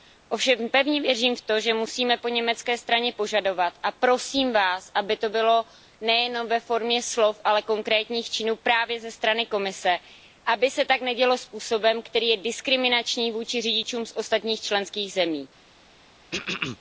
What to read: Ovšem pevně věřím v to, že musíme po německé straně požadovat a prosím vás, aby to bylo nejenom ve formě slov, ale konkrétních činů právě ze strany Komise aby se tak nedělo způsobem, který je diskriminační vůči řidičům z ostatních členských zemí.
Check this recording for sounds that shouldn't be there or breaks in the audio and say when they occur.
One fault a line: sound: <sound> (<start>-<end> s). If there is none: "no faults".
sound: throat clearing (16.3-16.8 s)